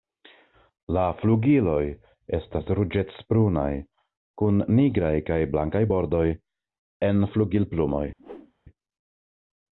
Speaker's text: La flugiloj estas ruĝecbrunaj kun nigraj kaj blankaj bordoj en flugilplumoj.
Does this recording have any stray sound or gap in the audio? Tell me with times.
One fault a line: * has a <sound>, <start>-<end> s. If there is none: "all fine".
* has a whoosh, 8.2-8.5 s